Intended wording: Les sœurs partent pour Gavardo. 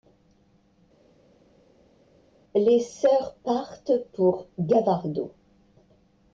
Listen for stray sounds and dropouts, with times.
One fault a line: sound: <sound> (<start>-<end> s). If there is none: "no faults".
no faults